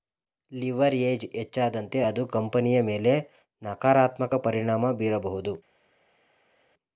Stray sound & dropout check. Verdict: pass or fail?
pass